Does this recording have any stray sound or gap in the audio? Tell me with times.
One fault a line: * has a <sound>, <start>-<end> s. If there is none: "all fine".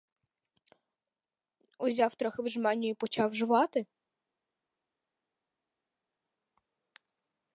all fine